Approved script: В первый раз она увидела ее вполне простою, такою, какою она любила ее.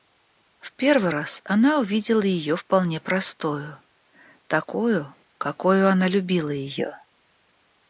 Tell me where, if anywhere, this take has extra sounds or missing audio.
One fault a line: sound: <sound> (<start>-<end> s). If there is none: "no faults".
no faults